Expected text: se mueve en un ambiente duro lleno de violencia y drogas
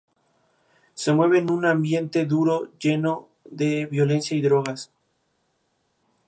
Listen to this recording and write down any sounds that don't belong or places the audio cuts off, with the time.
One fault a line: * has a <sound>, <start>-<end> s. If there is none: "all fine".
all fine